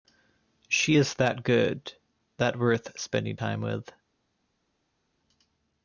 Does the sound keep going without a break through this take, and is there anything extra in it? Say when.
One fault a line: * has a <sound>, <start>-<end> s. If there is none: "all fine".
all fine